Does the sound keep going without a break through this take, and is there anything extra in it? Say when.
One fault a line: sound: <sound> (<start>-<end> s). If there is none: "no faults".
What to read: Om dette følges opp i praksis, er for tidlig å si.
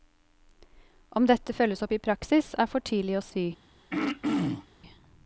sound: throat clearing (3.9-4.7 s)